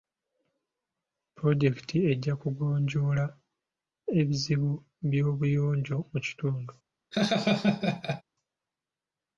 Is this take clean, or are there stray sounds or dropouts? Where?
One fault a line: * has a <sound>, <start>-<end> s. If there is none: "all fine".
* has a laugh, 7.1-8.2 s